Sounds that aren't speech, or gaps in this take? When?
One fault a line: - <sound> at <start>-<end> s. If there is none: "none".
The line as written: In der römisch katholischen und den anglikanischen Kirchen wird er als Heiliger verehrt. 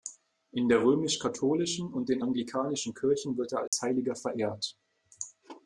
- dropout at 3.7-3.7 s